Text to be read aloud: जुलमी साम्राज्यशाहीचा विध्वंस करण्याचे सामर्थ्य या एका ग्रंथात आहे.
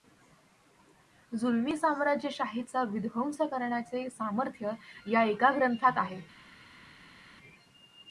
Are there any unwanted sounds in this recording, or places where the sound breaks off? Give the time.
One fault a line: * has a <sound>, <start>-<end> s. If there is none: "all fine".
all fine